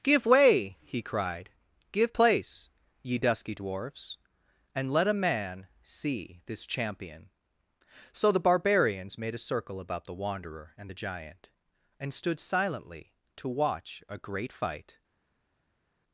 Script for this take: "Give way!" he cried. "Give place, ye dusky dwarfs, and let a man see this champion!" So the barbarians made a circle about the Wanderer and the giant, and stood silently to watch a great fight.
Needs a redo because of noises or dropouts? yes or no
no